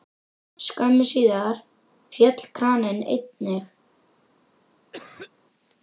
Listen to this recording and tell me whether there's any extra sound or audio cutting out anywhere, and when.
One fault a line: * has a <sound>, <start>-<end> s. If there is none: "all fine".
* has a cough, 4.9-5.3 s